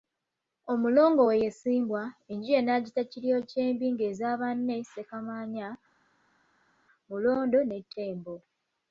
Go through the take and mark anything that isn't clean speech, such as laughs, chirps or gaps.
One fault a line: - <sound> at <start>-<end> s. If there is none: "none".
none